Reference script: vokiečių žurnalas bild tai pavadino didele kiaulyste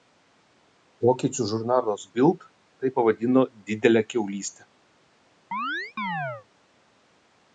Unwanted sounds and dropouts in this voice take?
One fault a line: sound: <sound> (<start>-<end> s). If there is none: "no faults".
sound: chirp (5.5-6.5 s)